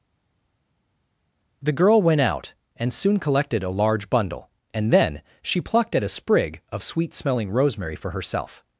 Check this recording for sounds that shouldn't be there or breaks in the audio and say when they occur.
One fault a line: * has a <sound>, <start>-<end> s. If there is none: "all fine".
all fine